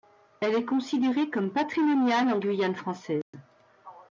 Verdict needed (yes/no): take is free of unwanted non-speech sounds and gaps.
no